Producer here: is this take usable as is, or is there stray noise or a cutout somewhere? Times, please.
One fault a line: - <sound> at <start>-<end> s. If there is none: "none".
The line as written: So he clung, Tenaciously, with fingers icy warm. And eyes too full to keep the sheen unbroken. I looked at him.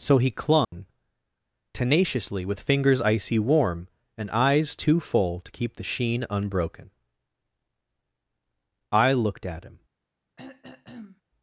- dropout at 0.6-0.7 s
- throat clearing at 10.4-11.2 s